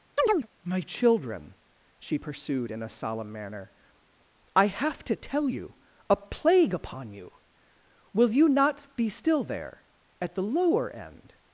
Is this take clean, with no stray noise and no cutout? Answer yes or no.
no